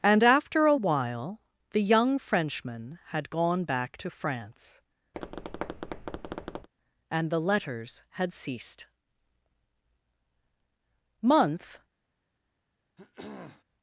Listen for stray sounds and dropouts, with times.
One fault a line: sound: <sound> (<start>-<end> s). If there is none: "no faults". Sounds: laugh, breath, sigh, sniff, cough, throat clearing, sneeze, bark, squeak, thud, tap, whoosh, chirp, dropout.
sound: tap (5.1-6.7 s)
sound: throat clearing (13.0-13.6 s)